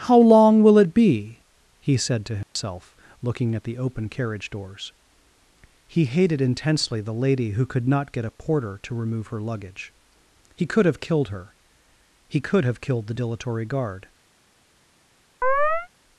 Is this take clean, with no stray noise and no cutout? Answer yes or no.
no